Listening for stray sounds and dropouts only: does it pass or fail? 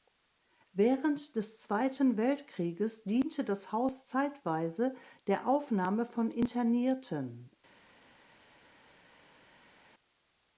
pass